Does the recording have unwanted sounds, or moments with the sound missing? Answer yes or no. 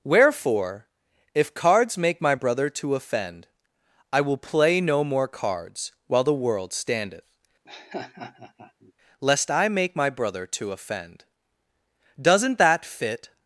yes